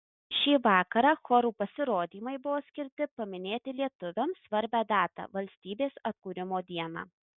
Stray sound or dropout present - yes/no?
no